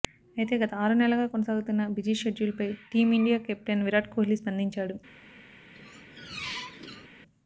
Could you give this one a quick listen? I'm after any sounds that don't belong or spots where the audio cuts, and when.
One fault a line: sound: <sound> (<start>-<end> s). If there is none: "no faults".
sound: squeak (5.7-7.1 s)